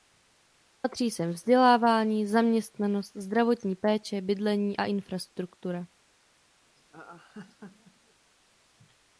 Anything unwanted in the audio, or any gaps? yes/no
yes